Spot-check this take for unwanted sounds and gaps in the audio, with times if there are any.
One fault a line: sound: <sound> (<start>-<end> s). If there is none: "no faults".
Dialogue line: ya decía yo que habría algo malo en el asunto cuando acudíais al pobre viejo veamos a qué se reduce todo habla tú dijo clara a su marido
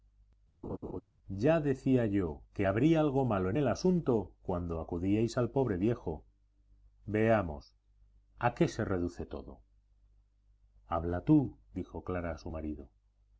sound: laugh (0.6-1.0 s)